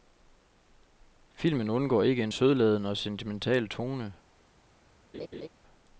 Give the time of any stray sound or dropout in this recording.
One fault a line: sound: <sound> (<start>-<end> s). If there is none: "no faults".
sound: laugh (5.1-5.5 s)